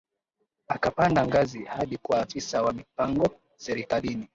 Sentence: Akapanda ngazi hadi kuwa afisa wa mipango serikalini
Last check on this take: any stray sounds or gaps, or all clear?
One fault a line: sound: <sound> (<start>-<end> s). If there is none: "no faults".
no faults